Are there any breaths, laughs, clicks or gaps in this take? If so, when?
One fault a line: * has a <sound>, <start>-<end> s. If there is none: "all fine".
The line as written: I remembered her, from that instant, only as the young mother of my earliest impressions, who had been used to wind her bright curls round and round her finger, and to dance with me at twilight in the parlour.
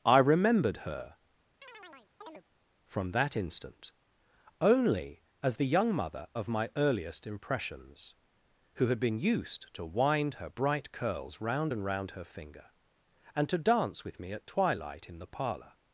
* has a chirp, 1.6-2.4 s